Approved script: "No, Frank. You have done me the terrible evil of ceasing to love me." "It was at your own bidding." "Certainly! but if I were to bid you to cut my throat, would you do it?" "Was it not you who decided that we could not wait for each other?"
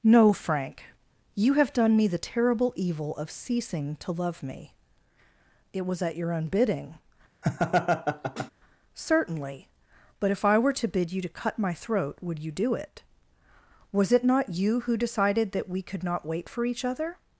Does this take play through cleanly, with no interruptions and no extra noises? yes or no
no